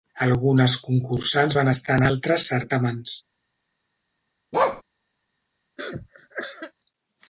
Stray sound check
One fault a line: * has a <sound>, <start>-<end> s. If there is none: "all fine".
* has a bark, 4.5-4.8 s
* has a cough, 5.8-6.7 s